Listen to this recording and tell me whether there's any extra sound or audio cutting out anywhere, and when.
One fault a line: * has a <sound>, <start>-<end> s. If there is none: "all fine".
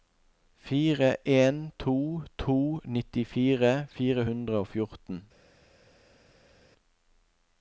all fine